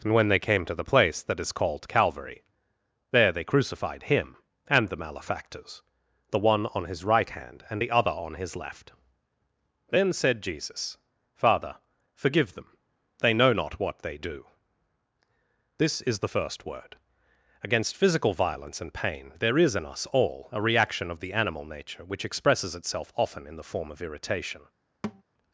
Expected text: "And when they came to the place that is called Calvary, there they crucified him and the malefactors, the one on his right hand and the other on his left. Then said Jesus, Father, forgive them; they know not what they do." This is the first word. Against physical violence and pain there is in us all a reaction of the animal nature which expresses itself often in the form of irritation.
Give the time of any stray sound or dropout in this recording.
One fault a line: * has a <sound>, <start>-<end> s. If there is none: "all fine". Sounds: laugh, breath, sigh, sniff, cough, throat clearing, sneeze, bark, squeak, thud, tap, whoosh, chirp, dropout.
* has a thud, 25.0-25.2 s